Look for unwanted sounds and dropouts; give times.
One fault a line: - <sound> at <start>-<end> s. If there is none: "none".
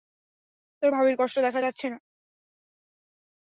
none